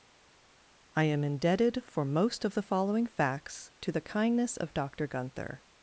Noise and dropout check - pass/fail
pass